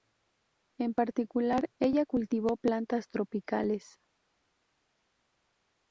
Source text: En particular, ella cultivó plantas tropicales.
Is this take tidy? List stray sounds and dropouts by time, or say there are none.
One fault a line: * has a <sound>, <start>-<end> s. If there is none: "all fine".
all fine